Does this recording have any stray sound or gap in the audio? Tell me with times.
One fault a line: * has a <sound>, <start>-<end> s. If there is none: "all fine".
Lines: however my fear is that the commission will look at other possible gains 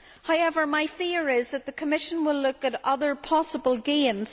all fine